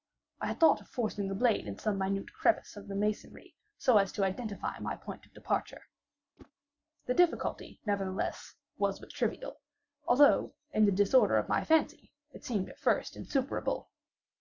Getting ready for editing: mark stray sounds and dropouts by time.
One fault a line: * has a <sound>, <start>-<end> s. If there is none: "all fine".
* has a whoosh, 6.4-6.5 s